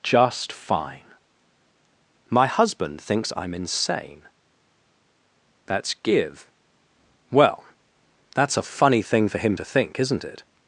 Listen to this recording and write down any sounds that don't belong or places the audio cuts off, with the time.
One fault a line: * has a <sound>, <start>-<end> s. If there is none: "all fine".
all fine